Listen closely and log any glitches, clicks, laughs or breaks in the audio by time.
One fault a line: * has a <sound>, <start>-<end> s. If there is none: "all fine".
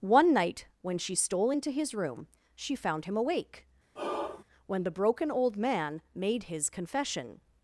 * has a sigh, 4.0-4.4 s